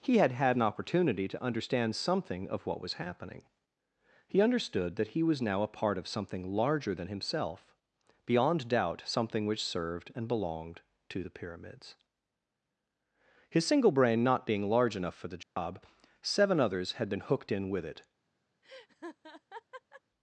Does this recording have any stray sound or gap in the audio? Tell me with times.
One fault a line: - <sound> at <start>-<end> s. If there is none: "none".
- dropout at 15.4-15.6 s
- laugh at 18.6-20.0 s